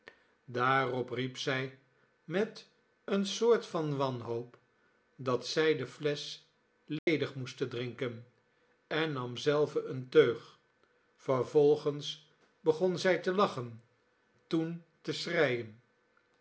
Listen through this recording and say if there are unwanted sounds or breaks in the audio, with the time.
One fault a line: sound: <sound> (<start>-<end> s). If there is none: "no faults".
sound: dropout (7.0-7.1 s)